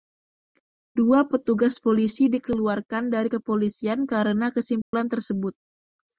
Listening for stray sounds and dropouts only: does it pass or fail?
fail